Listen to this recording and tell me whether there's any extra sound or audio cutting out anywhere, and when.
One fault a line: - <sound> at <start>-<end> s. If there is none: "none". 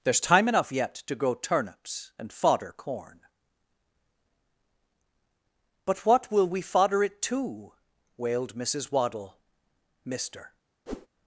- whoosh at 10.9-11.1 s